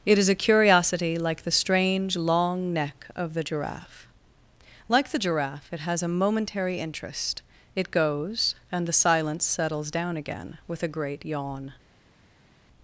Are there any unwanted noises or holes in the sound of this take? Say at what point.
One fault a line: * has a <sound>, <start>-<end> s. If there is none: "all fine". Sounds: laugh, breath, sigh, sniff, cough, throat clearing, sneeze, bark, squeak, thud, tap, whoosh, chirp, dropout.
all fine